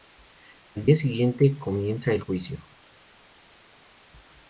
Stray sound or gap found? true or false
false